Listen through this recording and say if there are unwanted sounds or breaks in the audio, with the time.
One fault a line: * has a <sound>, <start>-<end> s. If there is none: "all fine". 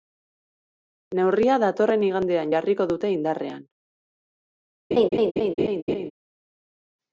* has a laugh, 4.9-6.1 s